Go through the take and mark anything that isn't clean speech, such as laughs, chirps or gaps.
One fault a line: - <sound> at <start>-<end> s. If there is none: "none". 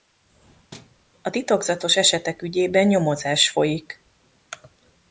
- thud at 0.7-1.0 s